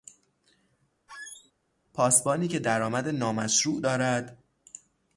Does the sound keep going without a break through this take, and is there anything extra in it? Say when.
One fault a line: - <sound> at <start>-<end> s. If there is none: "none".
- squeak at 1.1-1.5 s